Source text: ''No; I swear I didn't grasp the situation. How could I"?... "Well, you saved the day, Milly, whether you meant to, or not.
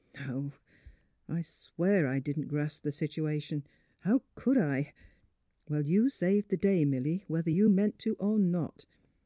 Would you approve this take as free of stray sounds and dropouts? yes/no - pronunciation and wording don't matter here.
yes